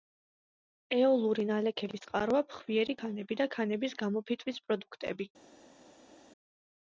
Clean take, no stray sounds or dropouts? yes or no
yes